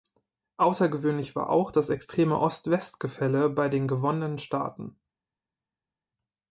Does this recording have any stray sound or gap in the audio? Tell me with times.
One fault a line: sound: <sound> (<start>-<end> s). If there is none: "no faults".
no faults